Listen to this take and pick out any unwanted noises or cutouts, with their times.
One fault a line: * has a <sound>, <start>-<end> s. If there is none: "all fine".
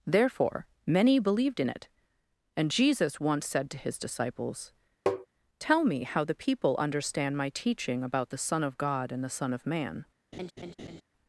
* has a tap, 5.1-5.3 s
* has a laugh, 10.3-11.0 s